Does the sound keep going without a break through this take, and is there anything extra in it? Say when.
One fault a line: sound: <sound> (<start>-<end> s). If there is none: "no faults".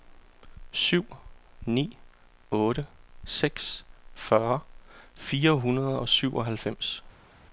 no faults